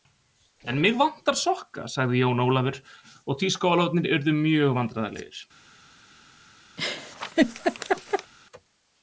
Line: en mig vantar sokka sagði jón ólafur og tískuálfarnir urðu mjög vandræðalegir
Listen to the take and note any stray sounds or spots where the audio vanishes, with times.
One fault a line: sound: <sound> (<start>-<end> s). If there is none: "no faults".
sound: laugh (6.8-8.3 s)